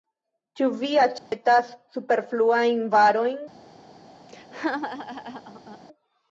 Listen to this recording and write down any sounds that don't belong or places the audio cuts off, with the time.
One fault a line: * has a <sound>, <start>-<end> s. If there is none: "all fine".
* has a dropout, 1.2-1.3 s
* has a laugh, 4.3-5.8 s